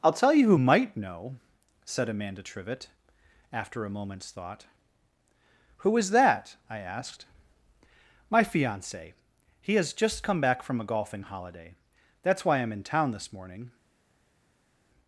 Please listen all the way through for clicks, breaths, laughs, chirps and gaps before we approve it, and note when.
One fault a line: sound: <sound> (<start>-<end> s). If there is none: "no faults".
no faults